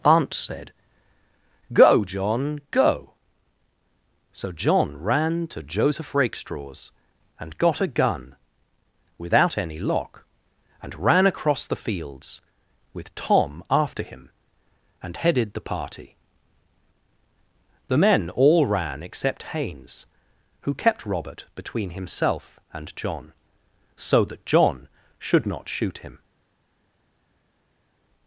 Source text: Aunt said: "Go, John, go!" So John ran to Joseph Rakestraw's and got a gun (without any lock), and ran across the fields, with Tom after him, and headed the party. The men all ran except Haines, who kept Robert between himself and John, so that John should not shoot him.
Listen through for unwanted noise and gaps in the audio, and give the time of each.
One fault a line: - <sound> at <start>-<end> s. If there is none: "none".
none